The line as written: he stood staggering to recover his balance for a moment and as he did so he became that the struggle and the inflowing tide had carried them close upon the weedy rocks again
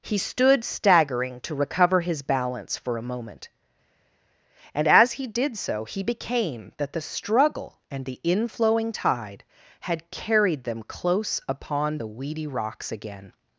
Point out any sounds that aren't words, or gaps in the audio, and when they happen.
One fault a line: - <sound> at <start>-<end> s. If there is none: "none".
none